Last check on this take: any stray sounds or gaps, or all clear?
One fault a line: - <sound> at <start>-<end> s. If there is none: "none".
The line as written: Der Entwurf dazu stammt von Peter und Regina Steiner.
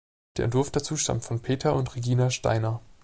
none